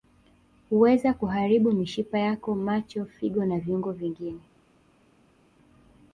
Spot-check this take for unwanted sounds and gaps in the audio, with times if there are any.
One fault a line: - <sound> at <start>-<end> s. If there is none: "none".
none